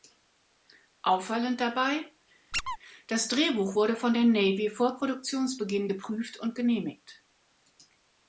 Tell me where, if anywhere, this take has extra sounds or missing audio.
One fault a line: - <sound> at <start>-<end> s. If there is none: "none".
- squeak at 2.5-2.8 s